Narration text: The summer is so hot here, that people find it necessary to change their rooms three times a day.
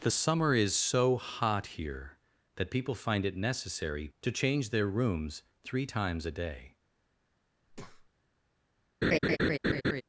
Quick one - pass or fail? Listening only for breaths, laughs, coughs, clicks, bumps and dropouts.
fail